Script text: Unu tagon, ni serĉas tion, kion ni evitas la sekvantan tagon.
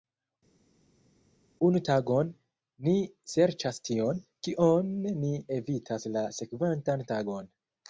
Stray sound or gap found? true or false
false